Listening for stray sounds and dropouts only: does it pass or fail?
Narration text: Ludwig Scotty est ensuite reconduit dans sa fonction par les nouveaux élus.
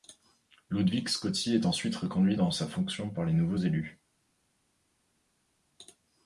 pass